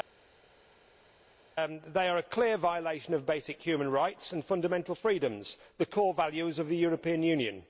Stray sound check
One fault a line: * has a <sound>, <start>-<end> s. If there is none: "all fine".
all fine